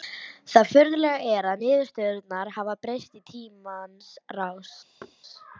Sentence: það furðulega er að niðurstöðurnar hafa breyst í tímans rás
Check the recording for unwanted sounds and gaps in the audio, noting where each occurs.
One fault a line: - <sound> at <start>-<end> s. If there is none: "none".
- thud at 5.0-5.2 s